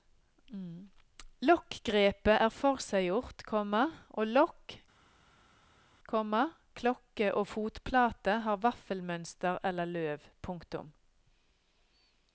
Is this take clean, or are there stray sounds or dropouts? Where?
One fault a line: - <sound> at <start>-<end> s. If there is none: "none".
none